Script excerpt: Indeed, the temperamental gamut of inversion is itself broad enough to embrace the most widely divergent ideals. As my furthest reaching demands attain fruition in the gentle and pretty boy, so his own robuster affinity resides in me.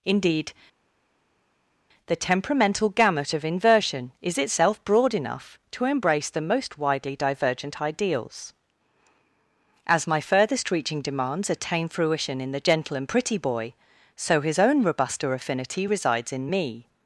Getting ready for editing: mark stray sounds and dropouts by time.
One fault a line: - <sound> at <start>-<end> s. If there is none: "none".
none